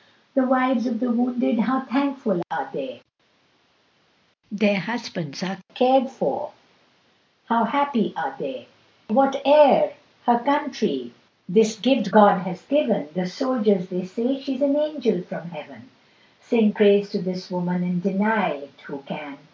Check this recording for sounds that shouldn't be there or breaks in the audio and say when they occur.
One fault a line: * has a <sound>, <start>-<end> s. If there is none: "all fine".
all fine